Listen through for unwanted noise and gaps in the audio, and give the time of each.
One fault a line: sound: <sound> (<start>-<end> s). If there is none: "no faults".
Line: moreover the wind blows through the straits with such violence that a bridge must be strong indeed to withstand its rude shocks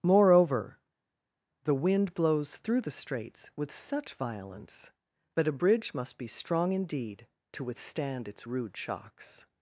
no faults